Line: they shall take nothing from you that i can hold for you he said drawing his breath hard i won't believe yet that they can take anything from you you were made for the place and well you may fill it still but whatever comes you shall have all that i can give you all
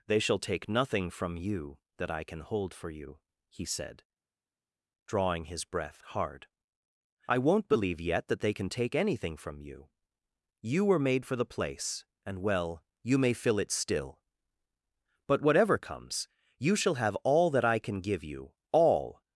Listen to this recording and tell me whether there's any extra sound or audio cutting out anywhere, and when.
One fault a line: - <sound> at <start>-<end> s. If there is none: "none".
none